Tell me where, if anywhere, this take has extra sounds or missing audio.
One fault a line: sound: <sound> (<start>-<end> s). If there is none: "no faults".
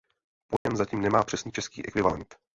sound: dropout (0.6-0.7 s)